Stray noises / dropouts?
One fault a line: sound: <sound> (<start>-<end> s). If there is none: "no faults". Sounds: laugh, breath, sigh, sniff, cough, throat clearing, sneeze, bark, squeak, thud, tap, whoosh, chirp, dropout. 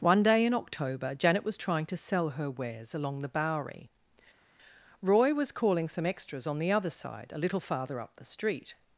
no faults